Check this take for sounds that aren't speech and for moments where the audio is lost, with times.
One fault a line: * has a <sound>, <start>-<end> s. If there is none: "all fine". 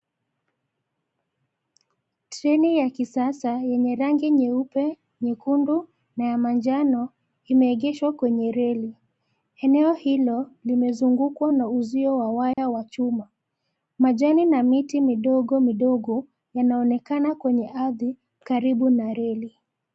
* has a dropout, 12.5-12.6 s